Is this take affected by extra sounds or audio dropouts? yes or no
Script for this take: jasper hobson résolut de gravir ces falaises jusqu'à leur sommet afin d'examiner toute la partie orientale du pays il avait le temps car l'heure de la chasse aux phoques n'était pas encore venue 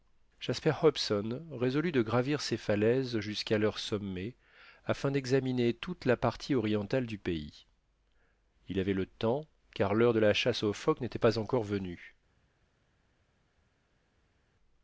no